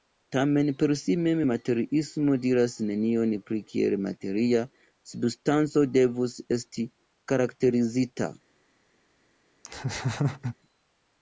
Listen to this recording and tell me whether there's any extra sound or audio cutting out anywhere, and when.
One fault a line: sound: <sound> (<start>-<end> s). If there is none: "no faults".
sound: laugh (9.6-10.6 s)